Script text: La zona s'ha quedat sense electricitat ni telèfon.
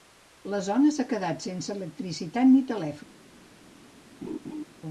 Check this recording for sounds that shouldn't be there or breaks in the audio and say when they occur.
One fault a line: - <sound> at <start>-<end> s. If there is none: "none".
- laugh at 4.2-4.6 s